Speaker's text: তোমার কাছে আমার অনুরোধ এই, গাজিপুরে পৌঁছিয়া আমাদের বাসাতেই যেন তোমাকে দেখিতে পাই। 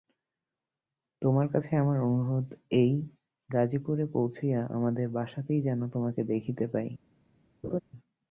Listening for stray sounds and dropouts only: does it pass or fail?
fail